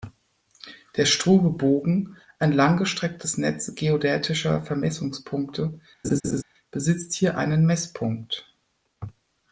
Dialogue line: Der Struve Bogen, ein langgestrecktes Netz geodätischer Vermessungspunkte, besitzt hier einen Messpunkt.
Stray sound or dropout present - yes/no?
yes